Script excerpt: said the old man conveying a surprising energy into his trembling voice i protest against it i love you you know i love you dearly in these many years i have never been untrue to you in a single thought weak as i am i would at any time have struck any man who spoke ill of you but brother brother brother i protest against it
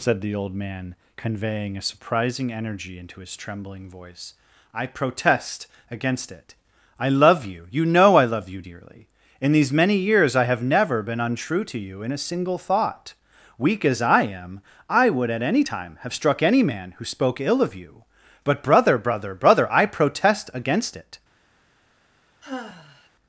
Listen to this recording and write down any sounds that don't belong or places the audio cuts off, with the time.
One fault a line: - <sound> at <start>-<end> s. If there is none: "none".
- sigh at 22.4-23.1 s